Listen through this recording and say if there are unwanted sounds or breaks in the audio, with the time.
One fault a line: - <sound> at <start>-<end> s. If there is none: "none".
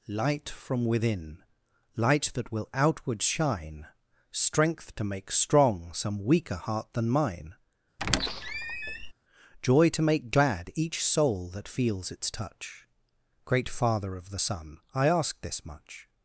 - squeak at 8.0-9.1 s